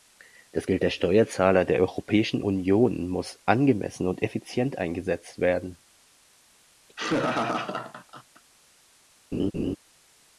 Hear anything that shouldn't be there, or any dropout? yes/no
yes